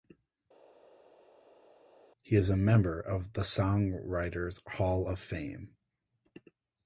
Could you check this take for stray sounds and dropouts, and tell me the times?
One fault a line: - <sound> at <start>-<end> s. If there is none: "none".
none